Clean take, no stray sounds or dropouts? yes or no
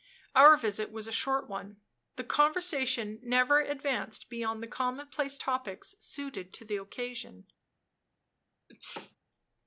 no